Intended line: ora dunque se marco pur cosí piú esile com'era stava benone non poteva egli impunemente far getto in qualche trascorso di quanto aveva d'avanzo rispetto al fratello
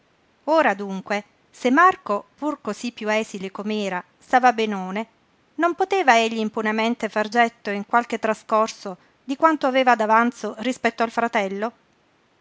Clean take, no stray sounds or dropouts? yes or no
yes